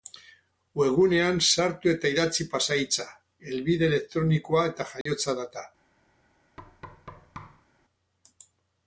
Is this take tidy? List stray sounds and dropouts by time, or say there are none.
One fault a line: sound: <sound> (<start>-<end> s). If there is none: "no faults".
sound: dropout (5.0-5.1 s)
sound: thud (6.6-7.7 s)